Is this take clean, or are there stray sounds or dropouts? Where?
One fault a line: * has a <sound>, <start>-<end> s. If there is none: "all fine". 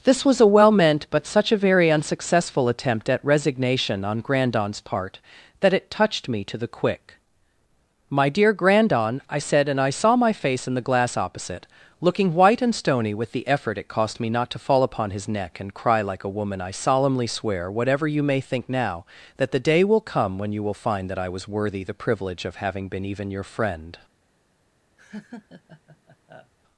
* has a laugh, 25.0-26.5 s